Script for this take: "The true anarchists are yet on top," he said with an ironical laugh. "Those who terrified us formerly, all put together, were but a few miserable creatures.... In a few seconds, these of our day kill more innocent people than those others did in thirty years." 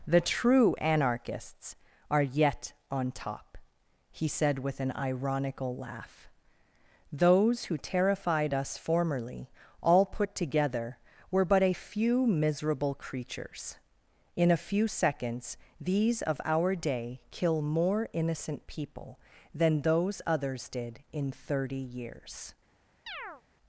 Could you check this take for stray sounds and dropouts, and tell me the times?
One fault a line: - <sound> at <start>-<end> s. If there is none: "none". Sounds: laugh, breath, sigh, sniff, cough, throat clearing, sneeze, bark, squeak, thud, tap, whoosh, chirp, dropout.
- chirp at 23.1-23.4 s